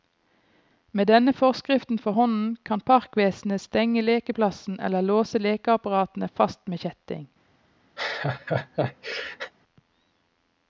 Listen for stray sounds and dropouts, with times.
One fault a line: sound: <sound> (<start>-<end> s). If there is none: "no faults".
sound: laugh (8.0-9.5 s)